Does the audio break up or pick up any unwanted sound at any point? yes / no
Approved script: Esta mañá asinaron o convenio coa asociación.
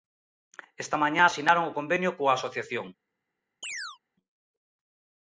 yes